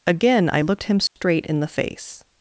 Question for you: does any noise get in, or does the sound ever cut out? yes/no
yes